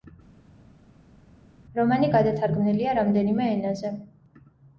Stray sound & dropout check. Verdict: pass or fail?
pass